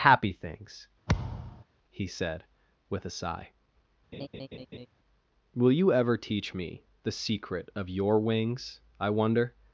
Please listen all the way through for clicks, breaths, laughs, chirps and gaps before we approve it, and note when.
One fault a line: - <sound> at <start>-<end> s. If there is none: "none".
- thud at 1.1-1.6 s
- laugh at 4.1-4.9 s